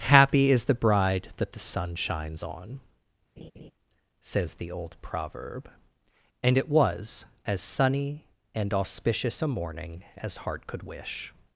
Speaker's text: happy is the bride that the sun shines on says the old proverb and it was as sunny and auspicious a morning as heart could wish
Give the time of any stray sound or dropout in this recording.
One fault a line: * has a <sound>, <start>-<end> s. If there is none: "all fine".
* has a laugh, 3.4-3.7 s